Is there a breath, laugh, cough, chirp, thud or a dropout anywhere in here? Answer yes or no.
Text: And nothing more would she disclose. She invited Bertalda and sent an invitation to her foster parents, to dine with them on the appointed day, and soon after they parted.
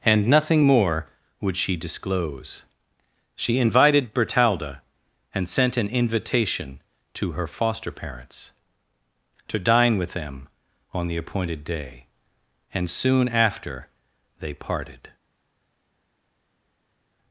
no